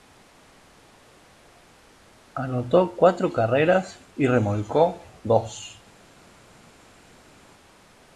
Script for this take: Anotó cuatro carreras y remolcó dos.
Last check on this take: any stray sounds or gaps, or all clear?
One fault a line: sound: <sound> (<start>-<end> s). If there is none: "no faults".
no faults